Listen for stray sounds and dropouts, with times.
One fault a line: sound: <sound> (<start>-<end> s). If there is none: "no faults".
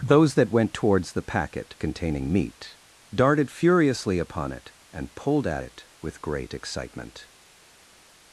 no faults